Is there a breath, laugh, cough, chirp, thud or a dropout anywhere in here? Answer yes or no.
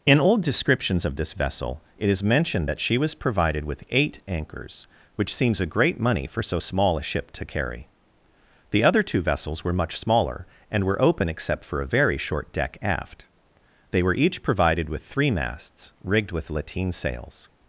no